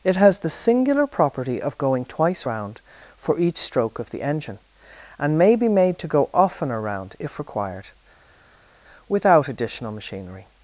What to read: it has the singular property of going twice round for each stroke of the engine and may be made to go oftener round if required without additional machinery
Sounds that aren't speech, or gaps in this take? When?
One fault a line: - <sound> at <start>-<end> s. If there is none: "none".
none